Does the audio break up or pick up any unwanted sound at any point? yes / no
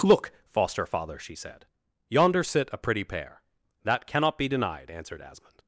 no